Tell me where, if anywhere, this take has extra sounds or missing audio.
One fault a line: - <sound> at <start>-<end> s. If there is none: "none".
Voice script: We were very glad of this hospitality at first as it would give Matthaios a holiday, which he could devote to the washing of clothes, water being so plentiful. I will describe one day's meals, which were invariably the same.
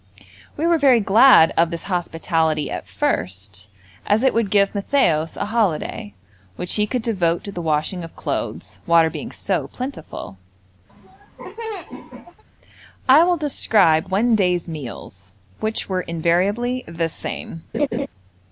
- laugh at 10.9-12.4 s
- laugh at 17.7-18.1 s